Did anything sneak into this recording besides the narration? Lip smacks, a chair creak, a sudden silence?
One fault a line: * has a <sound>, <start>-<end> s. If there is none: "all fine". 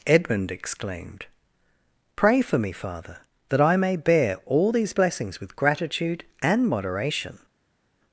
all fine